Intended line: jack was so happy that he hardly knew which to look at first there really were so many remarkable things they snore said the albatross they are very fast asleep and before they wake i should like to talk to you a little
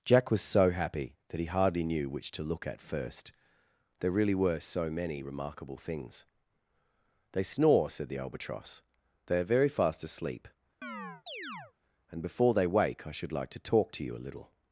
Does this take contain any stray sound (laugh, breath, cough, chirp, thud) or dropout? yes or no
yes